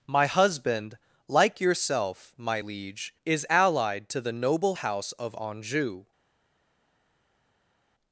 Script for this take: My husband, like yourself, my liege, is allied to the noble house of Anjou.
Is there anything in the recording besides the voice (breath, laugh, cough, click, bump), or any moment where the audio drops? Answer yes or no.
no